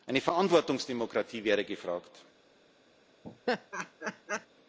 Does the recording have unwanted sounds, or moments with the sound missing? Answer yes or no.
yes